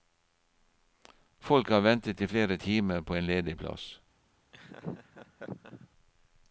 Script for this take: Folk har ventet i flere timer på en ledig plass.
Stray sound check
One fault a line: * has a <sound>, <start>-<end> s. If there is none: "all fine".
* has a laugh, 4.5-5.9 s